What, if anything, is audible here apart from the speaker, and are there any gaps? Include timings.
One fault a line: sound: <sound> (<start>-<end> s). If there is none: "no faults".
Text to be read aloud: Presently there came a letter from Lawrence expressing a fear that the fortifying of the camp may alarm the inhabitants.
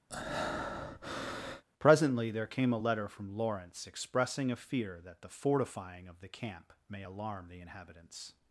sound: breath (0.1-1.6 s)